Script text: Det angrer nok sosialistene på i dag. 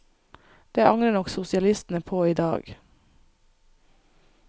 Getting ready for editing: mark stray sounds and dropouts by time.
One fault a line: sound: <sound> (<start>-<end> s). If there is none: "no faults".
no faults